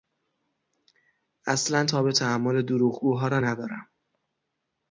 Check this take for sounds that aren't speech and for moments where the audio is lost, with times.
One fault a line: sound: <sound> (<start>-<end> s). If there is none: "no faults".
no faults